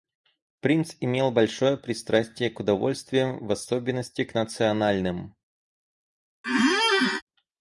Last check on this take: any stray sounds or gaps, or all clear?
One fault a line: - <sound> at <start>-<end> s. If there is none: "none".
- squeak at 6.4-7.2 s